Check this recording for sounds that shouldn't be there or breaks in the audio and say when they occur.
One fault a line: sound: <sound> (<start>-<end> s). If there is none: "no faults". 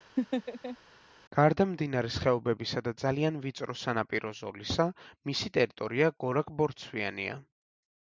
sound: laugh (0.2-0.8 s)